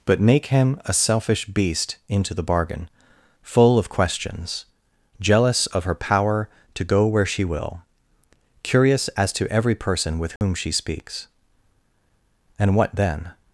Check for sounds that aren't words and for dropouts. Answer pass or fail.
fail